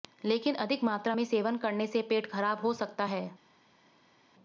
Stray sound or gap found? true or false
false